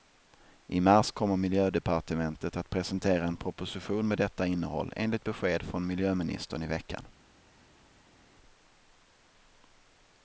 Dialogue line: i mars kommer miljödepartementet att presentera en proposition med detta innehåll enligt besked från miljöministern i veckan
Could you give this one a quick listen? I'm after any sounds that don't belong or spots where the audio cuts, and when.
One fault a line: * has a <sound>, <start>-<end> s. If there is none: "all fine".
all fine